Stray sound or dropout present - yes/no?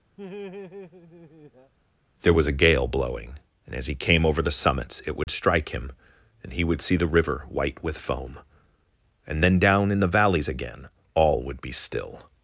yes